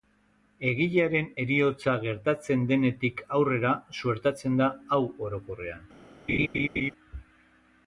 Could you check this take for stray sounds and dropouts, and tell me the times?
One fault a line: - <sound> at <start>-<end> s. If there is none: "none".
- laugh at 6.3-6.9 s